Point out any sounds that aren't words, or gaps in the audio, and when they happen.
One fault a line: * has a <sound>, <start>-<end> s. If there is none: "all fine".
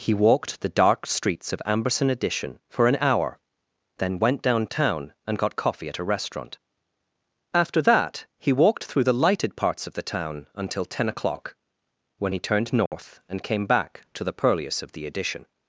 * has a dropout, 12.9-12.9 s